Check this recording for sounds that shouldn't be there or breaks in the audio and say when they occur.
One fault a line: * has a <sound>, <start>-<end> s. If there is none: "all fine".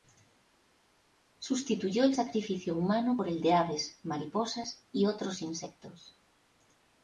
all fine